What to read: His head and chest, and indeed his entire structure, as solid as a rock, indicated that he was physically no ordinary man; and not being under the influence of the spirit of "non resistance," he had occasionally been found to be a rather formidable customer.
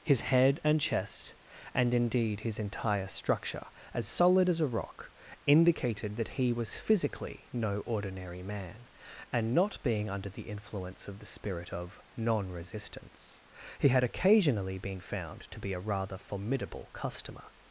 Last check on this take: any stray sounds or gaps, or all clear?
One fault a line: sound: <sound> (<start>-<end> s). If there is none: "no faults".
no faults